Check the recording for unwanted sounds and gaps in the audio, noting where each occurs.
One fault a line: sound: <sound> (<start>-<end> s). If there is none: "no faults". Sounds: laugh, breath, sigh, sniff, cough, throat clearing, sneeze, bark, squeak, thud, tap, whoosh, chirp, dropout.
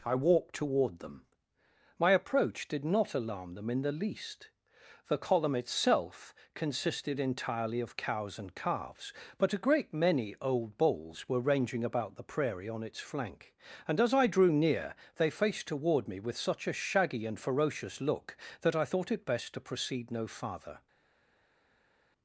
no faults